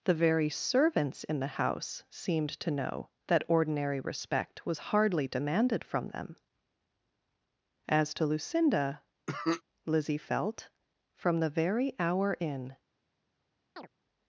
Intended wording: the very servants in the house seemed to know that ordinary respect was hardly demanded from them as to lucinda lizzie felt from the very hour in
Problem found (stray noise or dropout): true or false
true